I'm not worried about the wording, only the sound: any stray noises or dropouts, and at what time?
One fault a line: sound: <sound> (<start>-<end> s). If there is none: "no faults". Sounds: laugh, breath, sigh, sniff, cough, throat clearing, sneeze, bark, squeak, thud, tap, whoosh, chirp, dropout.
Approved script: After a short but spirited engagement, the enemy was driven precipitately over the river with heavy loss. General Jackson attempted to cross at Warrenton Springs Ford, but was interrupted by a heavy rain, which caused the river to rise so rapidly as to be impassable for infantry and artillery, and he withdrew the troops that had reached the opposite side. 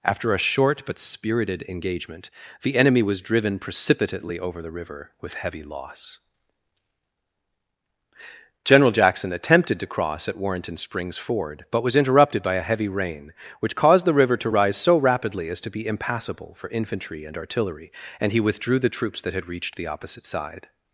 no faults